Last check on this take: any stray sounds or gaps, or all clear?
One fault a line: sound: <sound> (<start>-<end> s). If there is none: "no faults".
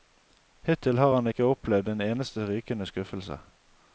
no faults